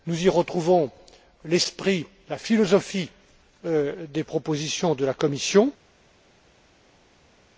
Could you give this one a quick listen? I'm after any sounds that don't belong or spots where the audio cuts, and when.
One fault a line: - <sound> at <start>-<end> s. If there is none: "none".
none